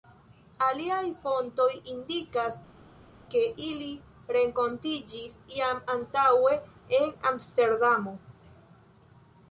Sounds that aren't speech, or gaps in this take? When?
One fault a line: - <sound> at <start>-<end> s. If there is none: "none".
none